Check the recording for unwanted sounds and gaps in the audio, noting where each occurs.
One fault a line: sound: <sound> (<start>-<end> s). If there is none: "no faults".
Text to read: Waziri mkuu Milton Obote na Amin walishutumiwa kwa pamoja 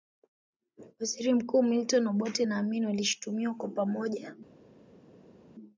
no faults